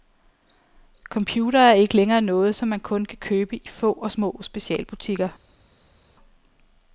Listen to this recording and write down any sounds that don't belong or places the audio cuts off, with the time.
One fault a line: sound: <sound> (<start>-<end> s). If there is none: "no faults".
no faults